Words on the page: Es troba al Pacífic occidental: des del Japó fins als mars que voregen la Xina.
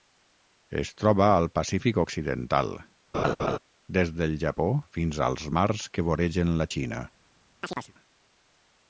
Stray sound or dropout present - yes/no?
yes